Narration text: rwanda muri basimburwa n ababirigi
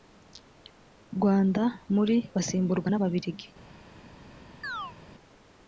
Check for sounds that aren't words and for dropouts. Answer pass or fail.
fail